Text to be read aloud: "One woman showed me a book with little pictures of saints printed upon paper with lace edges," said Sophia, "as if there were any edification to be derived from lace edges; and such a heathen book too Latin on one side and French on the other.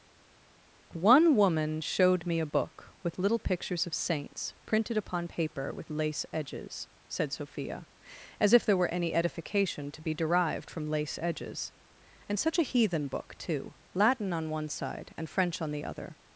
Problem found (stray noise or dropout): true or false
false